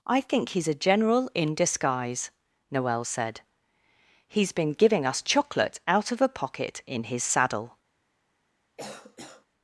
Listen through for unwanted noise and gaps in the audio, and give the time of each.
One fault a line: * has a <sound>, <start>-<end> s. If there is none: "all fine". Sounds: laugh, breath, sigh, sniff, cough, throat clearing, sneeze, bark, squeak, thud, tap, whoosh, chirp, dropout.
* has a cough, 8.8-9.5 s